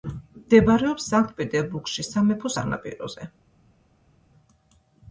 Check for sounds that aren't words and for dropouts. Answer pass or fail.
pass